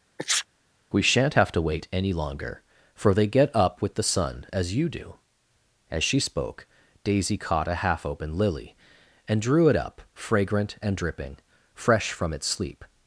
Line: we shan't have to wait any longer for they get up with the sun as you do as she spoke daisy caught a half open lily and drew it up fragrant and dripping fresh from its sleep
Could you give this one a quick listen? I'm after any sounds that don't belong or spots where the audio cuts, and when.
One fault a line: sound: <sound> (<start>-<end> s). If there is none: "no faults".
sound: sneeze (0.2-0.5 s)